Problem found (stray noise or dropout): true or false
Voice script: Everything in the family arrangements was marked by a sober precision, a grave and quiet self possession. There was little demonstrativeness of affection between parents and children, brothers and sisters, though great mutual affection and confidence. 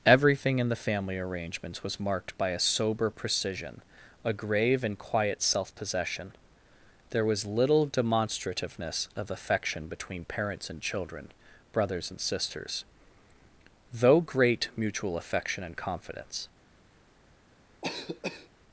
true